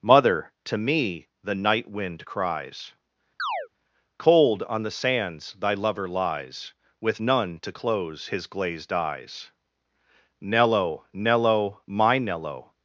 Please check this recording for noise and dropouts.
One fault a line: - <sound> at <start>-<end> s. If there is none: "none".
- chirp at 3.4-3.7 s